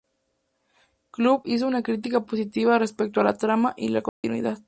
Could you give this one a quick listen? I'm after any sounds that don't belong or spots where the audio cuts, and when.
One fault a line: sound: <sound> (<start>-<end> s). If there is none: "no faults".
sound: dropout (4.1-4.2 s)